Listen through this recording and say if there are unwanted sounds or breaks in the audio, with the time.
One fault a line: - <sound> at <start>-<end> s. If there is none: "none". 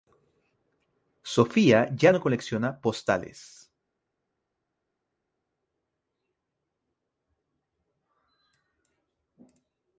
none